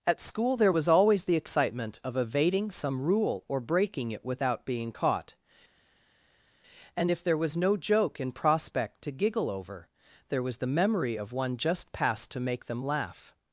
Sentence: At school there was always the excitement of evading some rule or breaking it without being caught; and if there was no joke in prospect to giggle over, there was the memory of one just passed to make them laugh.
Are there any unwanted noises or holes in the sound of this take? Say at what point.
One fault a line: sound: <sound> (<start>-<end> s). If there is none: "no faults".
no faults